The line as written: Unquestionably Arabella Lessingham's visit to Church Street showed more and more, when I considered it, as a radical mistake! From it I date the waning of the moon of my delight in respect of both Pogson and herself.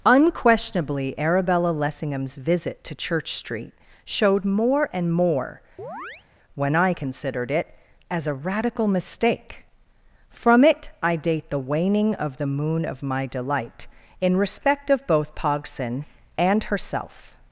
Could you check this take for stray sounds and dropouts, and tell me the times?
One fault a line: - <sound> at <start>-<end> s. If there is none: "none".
- chirp at 5.8-6.2 s